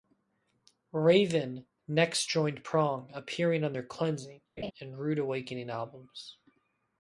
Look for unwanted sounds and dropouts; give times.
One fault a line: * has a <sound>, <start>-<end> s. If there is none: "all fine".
* has a laugh, 4.6-4.7 s